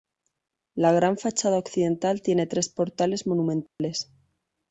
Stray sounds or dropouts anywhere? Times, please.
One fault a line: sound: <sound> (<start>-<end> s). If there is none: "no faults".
sound: dropout (3.7-3.8 s)